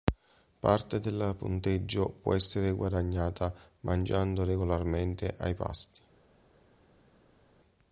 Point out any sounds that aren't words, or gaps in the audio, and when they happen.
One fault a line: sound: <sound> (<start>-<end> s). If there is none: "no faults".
no faults